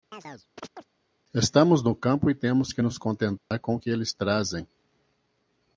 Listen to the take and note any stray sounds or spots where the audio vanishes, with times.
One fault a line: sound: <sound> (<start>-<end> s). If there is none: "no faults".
sound: chirp (0.1-0.9 s)
sound: dropout (3.4-3.5 s)